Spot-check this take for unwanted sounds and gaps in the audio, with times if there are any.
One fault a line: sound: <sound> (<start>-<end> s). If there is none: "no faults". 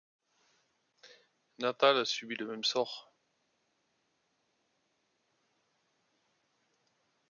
no faults